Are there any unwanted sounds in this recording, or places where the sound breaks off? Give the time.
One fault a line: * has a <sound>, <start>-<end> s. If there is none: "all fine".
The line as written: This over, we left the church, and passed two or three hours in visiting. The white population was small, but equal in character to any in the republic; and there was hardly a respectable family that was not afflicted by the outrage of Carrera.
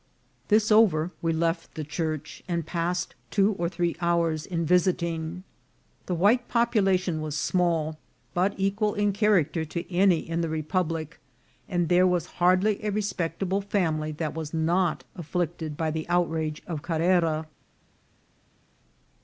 all fine